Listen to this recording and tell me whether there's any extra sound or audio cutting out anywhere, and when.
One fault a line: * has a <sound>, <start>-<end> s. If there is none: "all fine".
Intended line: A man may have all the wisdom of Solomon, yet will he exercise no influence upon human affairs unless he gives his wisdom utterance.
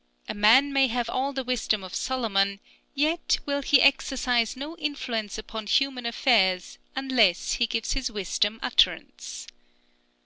all fine